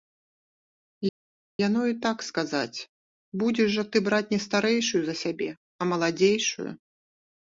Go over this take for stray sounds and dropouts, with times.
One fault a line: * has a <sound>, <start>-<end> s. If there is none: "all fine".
all fine